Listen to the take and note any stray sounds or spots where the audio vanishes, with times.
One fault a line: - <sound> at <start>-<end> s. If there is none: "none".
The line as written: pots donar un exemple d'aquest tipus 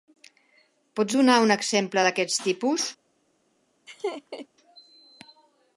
- laugh at 3.9-4.5 s